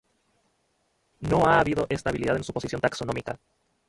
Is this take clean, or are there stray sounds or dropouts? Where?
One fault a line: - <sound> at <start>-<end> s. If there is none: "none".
none